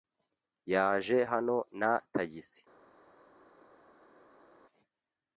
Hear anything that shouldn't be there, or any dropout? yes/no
no